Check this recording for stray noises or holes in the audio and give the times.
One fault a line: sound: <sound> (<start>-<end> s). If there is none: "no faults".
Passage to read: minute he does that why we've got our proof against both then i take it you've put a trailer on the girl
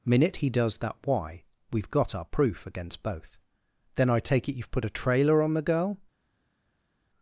no faults